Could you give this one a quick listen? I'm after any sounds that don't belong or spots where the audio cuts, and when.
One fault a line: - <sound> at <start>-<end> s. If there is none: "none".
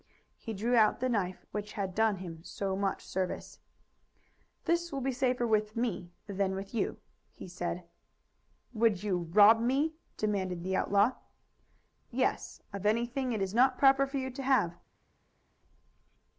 none